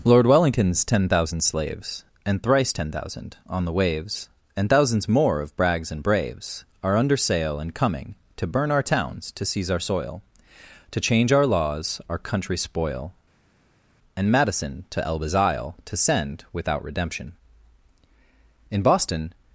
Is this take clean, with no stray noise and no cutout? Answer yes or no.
yes